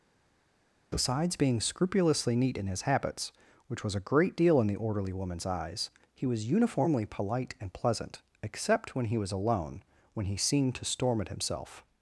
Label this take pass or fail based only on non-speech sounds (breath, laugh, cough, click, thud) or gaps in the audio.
pass